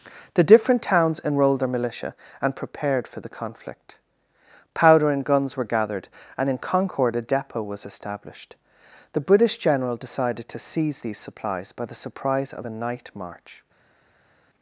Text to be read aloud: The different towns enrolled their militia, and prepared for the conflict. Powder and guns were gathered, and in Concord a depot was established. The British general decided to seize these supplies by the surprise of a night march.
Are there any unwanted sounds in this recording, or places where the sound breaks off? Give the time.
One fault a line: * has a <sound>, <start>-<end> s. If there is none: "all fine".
all fine